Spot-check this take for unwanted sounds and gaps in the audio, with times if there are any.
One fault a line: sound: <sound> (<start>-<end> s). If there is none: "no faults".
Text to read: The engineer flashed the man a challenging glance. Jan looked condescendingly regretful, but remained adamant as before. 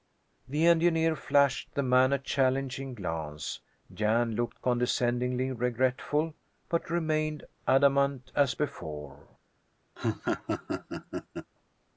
sound: laugh (10.0-11.5 s)